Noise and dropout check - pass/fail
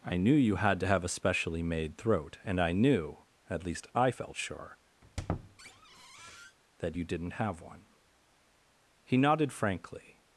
fail